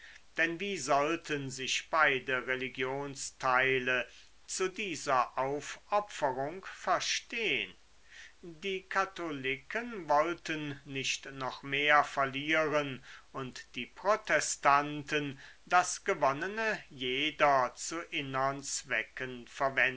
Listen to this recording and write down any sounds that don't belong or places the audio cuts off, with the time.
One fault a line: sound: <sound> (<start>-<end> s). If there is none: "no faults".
no faults